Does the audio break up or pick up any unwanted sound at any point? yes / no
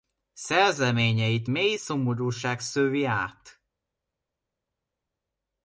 no